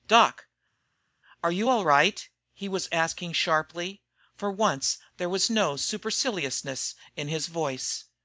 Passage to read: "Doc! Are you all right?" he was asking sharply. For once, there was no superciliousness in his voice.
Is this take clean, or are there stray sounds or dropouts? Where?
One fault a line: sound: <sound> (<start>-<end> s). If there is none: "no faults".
no faults